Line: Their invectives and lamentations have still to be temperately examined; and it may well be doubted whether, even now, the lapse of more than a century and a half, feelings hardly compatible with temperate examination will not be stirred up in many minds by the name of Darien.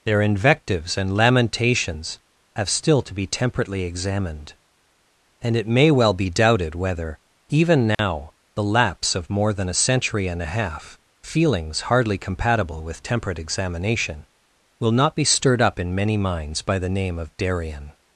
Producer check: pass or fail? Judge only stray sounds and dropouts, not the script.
fail